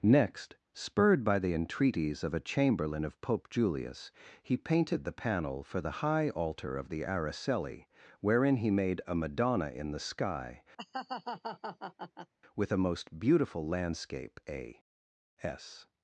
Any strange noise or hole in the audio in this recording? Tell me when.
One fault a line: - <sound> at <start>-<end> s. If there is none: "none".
- laugh at 10.8-12.3 s